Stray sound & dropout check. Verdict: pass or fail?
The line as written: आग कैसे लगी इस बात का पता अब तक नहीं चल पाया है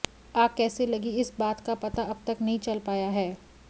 pass